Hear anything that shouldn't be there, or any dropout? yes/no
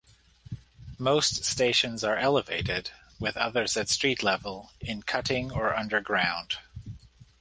no